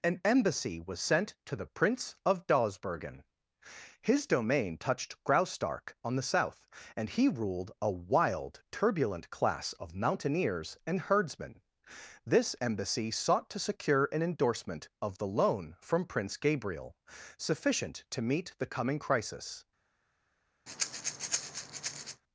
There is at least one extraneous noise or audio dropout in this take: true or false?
true